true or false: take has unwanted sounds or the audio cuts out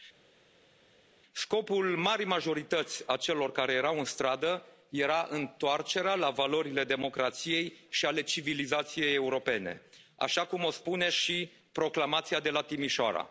false